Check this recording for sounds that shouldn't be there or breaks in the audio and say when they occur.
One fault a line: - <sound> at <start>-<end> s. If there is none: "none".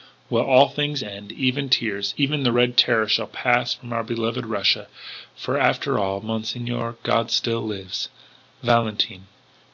none